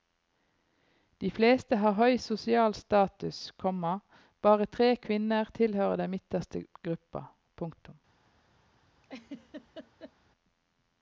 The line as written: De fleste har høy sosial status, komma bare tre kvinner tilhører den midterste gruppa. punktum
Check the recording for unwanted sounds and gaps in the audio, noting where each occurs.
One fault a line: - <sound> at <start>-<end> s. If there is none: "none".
- laugh at 9.0-10.1 s